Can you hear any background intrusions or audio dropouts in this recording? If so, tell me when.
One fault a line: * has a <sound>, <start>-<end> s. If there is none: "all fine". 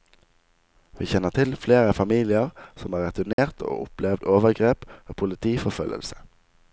* has a dropout, 3.3-3.4 s